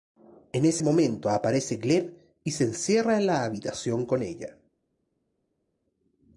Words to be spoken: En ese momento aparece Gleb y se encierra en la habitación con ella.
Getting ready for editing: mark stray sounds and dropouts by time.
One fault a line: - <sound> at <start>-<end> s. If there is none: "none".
none